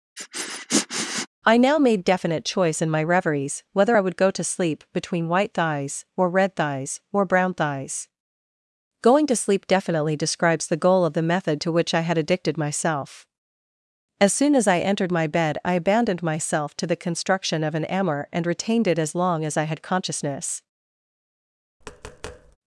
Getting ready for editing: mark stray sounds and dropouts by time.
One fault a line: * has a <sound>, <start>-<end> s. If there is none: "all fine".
* has a sniff, 0.2-1.3 s
* has a tap, 21.8-22.6 s